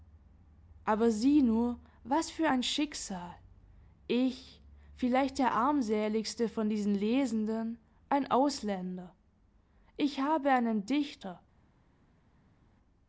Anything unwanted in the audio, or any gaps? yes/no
no